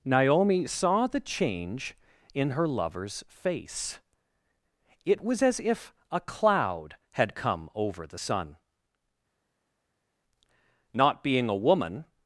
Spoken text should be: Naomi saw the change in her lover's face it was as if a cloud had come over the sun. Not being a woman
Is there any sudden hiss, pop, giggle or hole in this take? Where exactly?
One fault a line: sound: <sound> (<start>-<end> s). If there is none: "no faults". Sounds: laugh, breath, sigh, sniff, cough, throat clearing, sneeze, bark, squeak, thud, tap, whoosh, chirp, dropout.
no faults